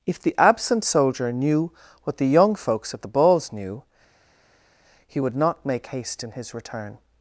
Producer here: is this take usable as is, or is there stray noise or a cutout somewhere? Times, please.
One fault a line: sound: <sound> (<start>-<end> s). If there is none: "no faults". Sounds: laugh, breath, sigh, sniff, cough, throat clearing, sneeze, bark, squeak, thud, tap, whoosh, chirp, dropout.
no faults